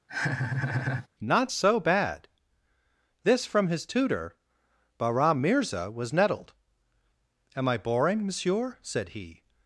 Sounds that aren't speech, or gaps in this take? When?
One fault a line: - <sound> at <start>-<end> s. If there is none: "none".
- laugh at 0.1-1.1 s